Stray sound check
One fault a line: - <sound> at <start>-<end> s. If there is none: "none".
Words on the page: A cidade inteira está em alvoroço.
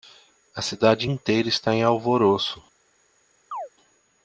- chirp at 3.5-3.7 s